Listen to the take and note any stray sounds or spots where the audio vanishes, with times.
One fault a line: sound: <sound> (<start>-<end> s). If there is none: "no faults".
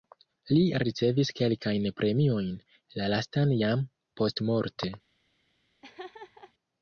sound: laugh (5.8-6.5 s)